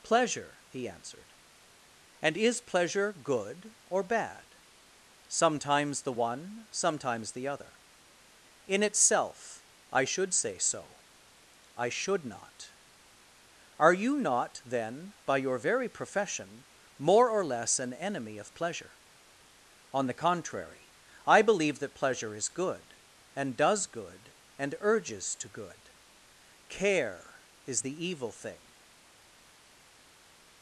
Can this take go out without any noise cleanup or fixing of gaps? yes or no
yes